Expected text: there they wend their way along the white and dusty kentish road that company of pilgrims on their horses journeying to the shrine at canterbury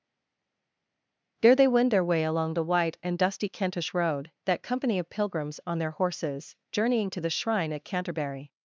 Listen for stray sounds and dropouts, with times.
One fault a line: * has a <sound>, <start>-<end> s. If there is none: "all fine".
all fine